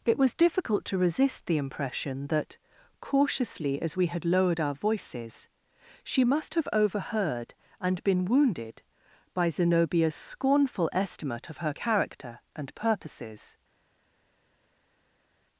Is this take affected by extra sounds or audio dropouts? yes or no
no